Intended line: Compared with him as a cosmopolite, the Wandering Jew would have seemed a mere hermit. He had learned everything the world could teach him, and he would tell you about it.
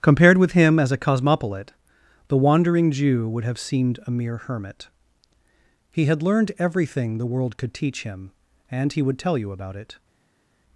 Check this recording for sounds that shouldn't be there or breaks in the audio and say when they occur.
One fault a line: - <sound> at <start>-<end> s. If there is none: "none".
none